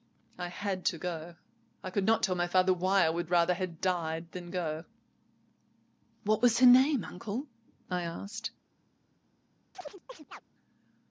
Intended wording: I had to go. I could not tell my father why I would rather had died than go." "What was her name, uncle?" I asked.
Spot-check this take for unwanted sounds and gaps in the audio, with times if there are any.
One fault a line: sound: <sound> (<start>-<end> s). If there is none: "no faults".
sound: chirp (9.7-10.4 s)